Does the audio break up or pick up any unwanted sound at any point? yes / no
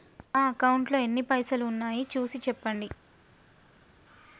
no